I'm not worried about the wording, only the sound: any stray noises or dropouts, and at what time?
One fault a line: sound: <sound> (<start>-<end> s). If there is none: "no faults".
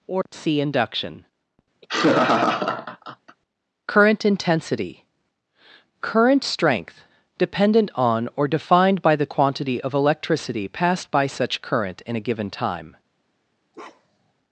sound: laugh (1.8-3.4 s)
sound: bark (13.7-14.3 s)